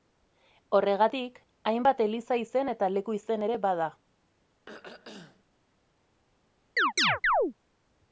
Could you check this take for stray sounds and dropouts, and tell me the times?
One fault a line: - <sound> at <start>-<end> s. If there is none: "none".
- throat clearing at 4.7-5.5 s
- chirp at 6.8-7.5 s